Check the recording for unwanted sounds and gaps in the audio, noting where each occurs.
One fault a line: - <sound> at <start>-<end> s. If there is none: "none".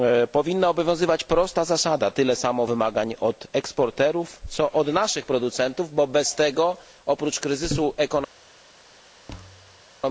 - thud at 9.3-9.8 s